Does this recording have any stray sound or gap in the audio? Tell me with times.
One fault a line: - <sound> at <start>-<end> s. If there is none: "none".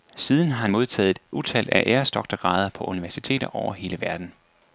none